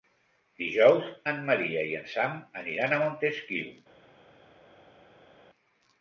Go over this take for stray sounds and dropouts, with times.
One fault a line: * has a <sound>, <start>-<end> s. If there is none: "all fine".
all fine